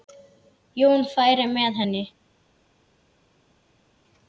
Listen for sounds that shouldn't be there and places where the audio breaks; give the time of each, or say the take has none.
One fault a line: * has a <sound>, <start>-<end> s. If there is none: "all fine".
all fine